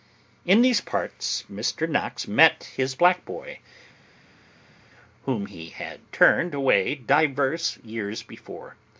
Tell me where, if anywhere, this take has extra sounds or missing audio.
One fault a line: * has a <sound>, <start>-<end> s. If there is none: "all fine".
all fine